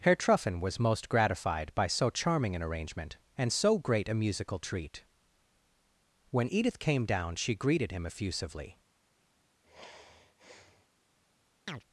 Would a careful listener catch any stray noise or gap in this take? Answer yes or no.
yes